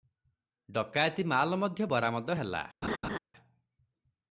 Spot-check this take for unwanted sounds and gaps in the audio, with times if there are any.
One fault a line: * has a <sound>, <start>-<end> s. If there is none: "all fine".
* has a laugh, 2.8-3.2 s